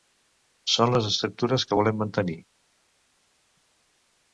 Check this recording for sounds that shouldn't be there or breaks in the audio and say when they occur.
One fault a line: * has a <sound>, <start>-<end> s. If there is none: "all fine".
all fine